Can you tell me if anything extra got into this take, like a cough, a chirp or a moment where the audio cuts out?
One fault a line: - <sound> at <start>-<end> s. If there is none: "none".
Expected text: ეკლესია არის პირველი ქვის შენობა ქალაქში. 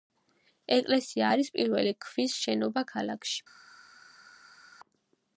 none